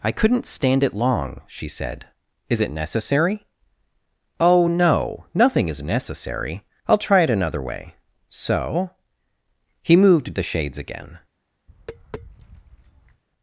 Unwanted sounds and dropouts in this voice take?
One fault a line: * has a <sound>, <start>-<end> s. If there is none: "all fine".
* has a tap, 11.7-13.2 s